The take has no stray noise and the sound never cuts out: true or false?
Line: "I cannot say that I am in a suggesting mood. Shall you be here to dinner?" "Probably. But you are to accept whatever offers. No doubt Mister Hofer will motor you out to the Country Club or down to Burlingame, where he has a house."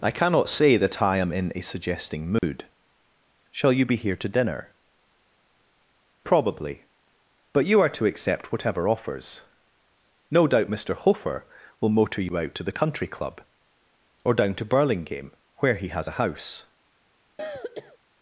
false